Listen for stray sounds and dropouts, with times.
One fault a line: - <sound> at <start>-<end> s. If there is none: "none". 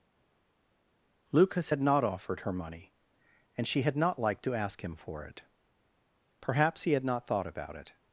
none